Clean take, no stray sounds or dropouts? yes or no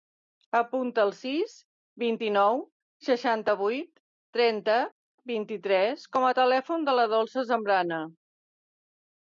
yes